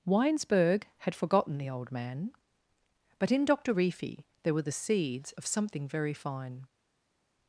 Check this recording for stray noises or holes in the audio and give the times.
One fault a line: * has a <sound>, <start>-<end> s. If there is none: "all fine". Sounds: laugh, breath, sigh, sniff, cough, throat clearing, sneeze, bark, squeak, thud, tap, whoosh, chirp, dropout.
all fine